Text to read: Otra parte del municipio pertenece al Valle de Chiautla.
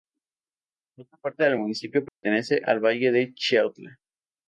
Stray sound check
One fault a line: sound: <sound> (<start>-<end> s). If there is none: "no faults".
sound: dropout (2.1-2.2 s)